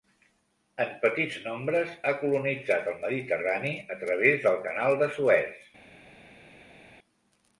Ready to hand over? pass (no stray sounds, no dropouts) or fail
pass